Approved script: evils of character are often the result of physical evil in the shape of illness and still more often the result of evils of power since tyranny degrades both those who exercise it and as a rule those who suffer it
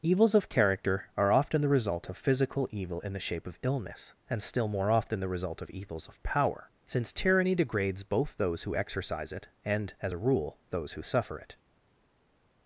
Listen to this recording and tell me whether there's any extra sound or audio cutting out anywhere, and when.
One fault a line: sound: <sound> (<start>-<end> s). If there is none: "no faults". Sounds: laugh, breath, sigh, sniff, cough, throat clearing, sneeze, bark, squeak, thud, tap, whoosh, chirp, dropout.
no faults